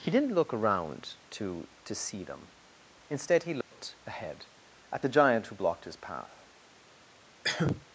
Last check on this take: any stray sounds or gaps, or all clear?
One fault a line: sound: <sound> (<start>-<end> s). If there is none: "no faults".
sound: dropout (3.6-3.7 s)
sound: cough (7.4-7.8 s)